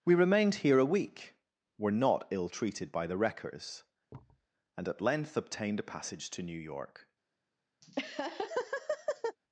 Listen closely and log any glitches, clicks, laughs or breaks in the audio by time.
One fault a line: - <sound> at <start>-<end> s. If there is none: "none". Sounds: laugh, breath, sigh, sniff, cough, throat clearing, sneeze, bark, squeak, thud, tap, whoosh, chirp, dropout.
- thud at 4.1-4.5 s
- laugh at 7.8-9.4 s